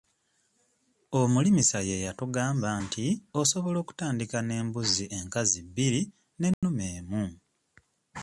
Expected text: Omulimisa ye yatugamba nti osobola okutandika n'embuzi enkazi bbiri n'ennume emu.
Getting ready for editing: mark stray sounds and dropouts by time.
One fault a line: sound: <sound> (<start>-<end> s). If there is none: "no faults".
sound: dropout (6.5-6.6 s)